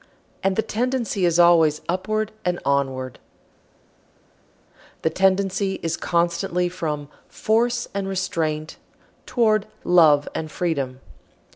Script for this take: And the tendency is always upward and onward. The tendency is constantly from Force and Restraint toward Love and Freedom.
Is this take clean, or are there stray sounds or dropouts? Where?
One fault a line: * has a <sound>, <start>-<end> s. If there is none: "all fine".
all fine